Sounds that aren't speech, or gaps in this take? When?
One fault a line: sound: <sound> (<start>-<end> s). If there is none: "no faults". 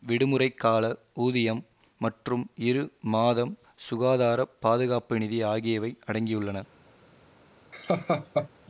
sound: laugh (7.7-8.5 s)